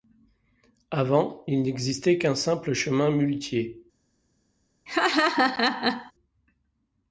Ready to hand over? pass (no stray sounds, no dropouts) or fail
fail